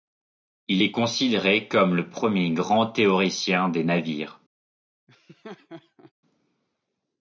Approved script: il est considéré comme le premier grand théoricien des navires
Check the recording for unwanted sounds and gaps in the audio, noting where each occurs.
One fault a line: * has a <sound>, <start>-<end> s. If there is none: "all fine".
* has a laugh, 5.1-6.1 s